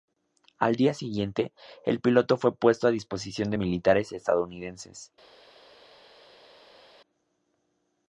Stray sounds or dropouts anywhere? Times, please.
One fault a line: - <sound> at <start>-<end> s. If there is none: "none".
none